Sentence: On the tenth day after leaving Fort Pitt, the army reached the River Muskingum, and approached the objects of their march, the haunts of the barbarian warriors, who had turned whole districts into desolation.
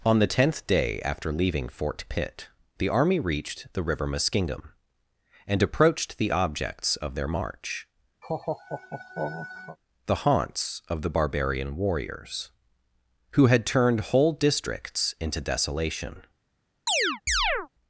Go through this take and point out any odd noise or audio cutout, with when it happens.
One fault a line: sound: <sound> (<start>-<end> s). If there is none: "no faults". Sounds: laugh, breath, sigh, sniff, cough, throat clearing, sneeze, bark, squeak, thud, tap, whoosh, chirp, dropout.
sound: laugh (8.2-9.8 s)
sound: chirp (16.9-17.7 s)